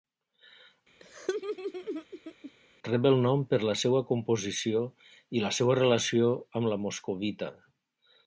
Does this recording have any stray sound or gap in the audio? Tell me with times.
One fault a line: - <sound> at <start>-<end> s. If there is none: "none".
- laugh at 1.0-2.5 s